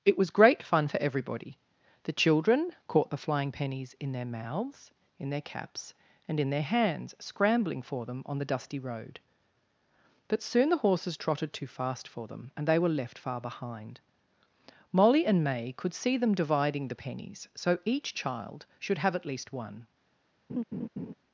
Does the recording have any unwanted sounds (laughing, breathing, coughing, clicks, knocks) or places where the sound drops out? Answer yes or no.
yes